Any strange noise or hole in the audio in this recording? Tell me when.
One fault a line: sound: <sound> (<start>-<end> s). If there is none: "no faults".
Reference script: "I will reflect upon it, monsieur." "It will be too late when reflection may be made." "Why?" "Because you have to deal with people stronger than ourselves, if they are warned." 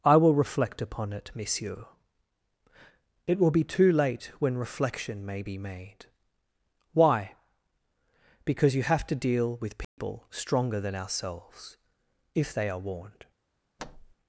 sound: dropout (9.8-10.0 s)
sound: thud (13.8-14.1 s)